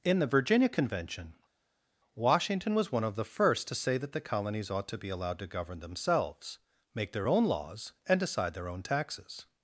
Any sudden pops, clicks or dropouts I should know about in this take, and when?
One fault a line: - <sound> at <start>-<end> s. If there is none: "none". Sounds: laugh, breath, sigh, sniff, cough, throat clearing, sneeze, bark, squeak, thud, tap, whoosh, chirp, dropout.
none